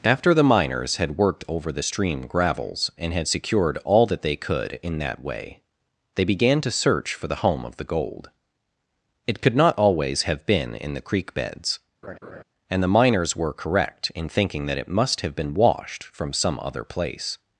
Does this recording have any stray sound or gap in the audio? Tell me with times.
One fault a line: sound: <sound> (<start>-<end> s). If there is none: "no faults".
sound: laugh (12.0-12.4 s)